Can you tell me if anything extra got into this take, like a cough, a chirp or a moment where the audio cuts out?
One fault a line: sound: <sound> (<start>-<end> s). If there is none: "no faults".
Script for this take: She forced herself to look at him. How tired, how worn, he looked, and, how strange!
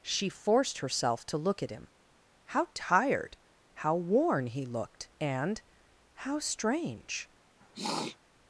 sound: sniff (7.6-8.2 s)